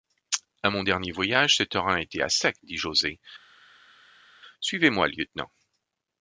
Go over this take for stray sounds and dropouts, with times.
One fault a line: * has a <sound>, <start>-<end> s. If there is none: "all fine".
all fine